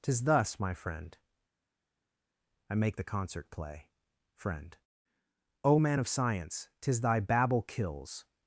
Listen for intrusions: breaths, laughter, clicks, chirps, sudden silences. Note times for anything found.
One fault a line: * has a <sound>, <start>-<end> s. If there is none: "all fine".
all fine